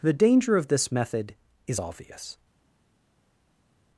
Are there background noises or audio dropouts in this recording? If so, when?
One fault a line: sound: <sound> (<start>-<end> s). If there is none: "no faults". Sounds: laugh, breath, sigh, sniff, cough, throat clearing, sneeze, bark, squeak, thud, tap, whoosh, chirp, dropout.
no faults